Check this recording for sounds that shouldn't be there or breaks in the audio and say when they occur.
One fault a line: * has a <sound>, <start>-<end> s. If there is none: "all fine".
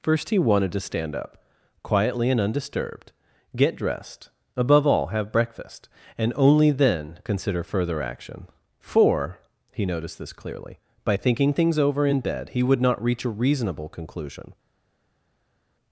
all fine